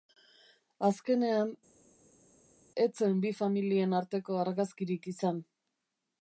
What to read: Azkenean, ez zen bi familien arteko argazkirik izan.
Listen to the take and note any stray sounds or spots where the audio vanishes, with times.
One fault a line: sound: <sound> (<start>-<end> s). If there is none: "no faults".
no faults